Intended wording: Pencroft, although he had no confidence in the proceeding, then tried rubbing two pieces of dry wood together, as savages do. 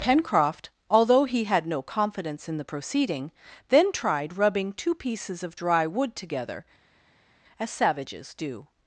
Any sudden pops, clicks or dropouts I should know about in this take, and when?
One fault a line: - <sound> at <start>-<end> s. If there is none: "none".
none